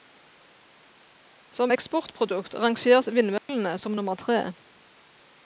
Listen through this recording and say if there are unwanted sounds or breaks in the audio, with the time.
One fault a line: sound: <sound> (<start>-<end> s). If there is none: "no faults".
sound: dropout (3.4-3.5 s)